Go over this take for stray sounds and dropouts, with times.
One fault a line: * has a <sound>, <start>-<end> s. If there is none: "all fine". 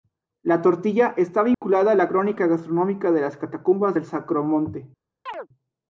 * has a dropout, 1.5-1.6 s
* has a chirp, 5.3-5.5 s